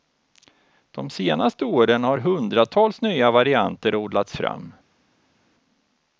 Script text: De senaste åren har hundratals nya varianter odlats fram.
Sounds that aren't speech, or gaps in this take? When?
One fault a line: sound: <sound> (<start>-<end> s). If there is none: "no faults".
no faults